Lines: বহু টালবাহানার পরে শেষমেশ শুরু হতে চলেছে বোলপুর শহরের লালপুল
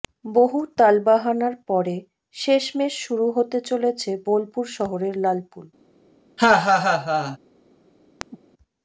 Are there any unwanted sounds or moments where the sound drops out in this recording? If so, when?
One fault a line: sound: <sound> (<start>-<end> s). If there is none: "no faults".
sound: laugh (6.4-7.4 s)
sound: chirp (8.2-8.4 s)